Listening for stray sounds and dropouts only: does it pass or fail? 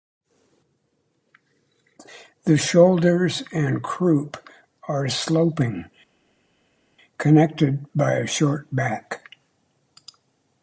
pass